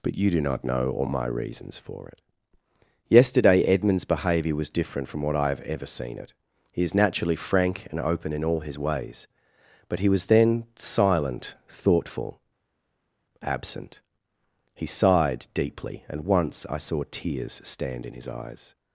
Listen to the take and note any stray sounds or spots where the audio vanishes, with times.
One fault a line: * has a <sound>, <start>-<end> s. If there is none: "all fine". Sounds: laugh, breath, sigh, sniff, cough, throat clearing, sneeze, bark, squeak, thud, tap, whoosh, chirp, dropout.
all fine